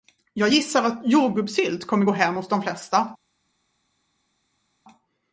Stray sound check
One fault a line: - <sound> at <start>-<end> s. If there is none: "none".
none